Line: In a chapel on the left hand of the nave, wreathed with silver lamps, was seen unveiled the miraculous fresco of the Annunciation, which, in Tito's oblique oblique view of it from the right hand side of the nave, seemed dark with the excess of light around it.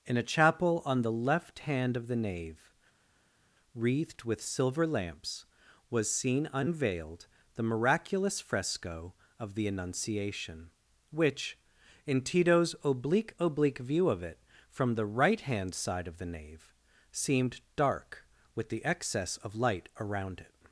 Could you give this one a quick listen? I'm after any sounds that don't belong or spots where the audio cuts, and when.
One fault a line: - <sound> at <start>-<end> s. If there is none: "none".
none